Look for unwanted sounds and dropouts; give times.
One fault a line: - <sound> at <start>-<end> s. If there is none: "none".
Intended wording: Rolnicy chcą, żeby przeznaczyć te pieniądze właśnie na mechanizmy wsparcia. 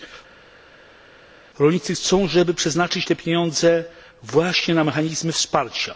none